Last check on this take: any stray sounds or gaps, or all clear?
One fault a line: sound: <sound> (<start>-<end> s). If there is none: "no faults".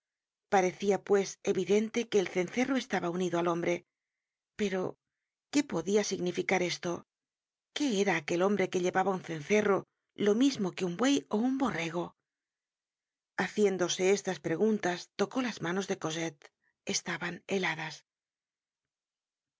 no faults